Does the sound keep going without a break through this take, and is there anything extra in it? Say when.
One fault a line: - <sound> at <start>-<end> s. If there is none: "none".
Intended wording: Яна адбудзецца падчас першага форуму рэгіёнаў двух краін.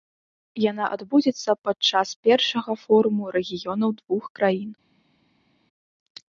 none